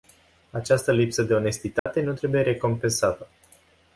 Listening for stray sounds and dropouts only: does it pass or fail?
fail